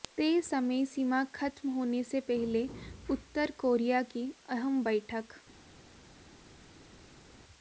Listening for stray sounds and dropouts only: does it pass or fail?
pass